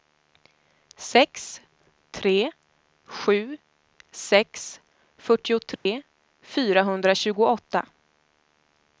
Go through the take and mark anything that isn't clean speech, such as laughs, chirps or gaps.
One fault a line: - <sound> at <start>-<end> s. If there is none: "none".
- dropout at 5.8-5.9 s